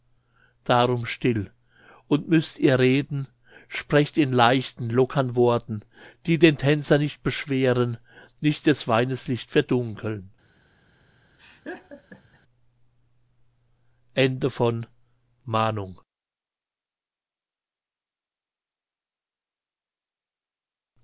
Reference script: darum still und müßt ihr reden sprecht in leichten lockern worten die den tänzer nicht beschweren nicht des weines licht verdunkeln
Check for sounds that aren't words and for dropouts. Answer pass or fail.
fail